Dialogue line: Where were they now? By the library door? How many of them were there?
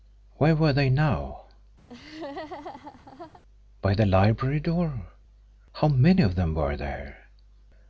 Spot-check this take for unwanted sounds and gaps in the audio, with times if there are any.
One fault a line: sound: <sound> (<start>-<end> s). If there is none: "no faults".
sound: laugh (1.9-3.4 s)